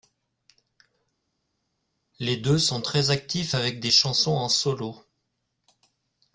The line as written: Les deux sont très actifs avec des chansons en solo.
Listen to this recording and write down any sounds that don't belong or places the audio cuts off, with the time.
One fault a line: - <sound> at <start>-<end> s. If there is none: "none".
none